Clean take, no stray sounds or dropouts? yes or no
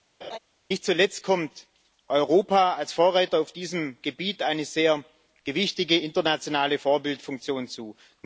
no